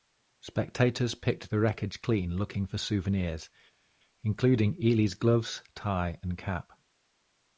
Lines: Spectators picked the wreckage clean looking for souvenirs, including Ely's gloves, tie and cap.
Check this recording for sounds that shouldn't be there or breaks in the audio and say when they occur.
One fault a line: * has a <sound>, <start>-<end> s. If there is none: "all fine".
all fine